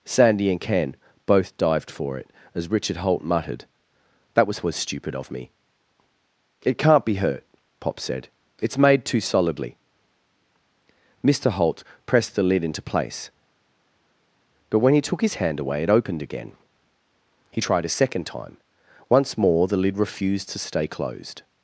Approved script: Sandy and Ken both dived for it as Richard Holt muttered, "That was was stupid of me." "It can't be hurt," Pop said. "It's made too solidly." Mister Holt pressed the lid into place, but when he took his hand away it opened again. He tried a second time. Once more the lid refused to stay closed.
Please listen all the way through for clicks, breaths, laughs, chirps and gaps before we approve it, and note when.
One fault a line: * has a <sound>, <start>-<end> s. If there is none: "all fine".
all fine